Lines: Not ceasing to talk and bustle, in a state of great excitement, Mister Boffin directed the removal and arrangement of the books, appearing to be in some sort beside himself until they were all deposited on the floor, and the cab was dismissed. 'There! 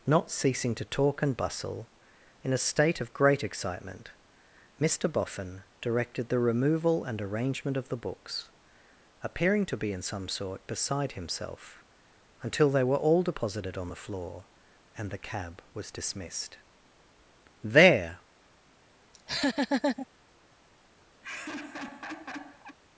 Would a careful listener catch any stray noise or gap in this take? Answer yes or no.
yes